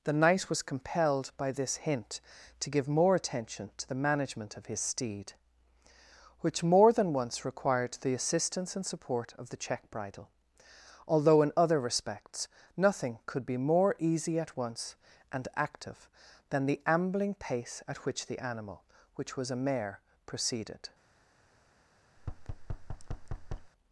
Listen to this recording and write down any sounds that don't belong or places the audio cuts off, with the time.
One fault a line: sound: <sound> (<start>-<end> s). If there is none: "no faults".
sound: thud (22.2-23.7 s)